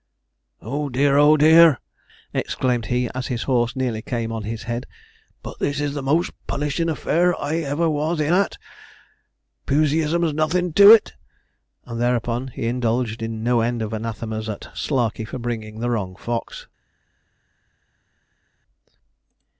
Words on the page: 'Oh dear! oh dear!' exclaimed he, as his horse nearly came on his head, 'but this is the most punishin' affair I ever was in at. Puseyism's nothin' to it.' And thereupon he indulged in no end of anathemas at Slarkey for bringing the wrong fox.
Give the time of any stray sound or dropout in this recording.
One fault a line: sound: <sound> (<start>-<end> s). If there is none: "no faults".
no faults